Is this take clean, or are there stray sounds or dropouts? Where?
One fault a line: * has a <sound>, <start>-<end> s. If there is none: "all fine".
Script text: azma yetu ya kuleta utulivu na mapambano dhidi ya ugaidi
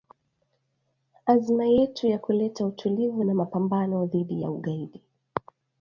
all fine